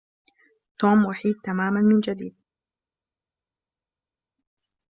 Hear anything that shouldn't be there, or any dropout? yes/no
no